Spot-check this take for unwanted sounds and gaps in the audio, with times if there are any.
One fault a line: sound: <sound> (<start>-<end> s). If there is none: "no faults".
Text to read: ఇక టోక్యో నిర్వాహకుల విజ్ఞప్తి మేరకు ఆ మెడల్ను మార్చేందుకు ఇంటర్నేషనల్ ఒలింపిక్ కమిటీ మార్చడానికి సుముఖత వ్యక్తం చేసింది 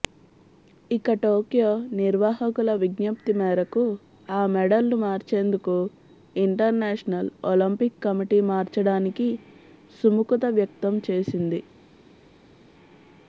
no faults